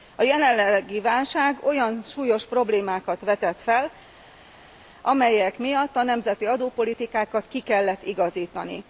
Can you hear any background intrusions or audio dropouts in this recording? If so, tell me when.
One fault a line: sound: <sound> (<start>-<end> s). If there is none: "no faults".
no faults